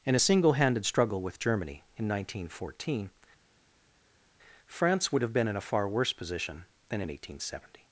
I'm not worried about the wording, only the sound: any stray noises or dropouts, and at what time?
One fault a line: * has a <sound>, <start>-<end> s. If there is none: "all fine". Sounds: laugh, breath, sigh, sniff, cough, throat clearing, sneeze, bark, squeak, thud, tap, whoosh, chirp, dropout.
all fine